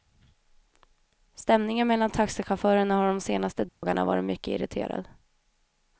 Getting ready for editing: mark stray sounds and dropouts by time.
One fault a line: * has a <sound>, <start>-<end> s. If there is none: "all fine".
* has a dropout, 3.7-3.8 s